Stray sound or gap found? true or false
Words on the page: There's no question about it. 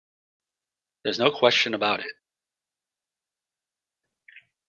false